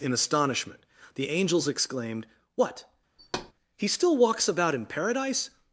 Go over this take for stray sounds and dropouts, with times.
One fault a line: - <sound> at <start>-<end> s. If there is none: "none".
- thud at 3.2-3.5 s